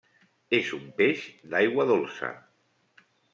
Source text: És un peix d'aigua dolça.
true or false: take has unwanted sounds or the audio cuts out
false